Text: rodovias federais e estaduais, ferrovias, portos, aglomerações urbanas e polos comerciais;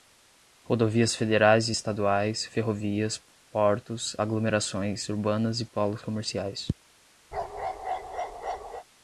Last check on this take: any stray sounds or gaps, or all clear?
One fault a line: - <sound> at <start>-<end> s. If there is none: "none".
- bark at 7.3-8.9 s